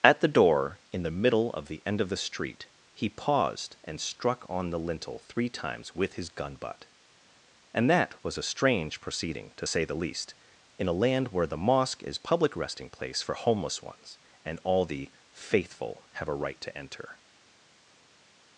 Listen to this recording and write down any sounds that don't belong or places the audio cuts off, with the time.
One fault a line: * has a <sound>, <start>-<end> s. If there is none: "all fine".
all fine